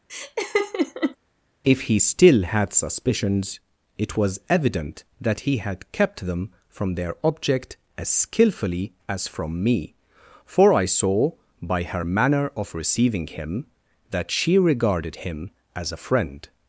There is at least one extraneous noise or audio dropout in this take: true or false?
true